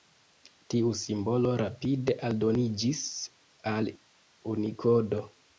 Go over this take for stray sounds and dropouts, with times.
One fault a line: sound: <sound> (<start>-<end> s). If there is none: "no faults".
no faults